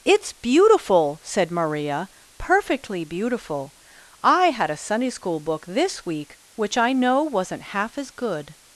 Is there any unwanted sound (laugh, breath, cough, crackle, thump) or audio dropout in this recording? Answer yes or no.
no